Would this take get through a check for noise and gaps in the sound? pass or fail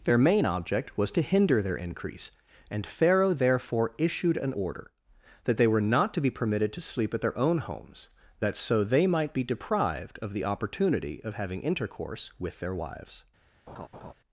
fail